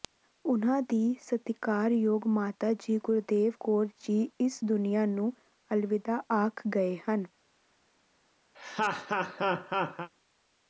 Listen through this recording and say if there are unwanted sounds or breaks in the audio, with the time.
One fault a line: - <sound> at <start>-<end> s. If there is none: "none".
- laugh at 8.5-10.1 s